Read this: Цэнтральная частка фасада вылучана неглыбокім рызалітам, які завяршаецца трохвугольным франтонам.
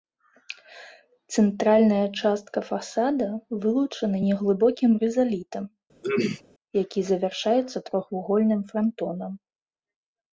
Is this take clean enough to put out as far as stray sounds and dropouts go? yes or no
no